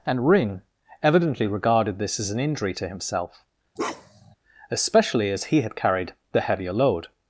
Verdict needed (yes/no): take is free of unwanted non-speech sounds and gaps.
no